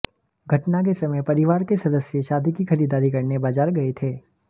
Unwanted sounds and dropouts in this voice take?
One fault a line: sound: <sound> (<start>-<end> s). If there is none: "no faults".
no faults